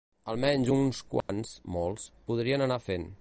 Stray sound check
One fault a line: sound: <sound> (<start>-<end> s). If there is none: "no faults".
sound: dropout (1.2-1.3 s)